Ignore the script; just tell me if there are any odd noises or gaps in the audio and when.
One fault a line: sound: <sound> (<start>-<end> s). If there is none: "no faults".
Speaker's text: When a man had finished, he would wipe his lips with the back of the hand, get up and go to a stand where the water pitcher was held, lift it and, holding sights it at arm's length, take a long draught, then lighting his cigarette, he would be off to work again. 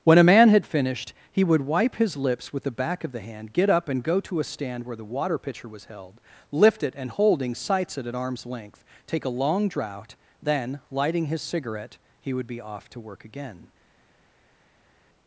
no faults